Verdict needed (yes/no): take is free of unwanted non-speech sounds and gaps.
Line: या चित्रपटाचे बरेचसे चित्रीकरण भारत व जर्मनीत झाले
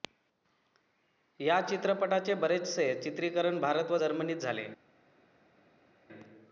yes